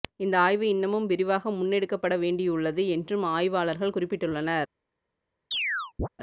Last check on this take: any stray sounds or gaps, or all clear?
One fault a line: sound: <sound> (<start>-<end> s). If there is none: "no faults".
sound: chirp (5.5-6.1 s)